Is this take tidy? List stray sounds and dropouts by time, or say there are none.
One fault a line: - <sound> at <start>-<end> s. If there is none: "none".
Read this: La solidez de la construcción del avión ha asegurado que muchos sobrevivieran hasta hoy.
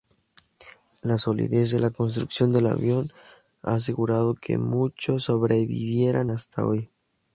none